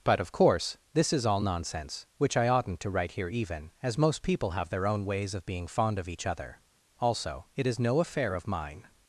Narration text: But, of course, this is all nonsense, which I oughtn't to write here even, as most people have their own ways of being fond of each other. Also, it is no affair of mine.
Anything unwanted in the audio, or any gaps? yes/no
no